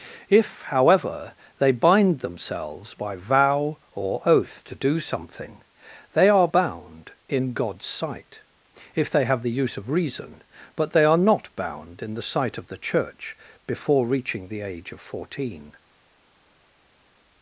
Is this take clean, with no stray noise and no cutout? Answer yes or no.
yes